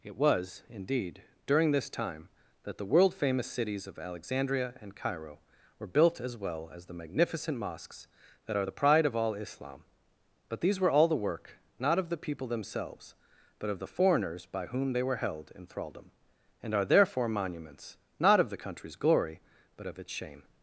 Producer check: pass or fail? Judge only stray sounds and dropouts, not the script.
pass